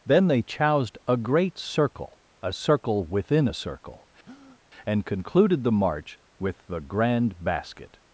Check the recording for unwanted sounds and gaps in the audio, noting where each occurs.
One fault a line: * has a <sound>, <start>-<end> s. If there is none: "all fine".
* has a breath, 4.2-4.6 s